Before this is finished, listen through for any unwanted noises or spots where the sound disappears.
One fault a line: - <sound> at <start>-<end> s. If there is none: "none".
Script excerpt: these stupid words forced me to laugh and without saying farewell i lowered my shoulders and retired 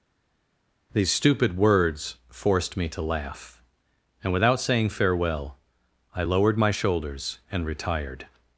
none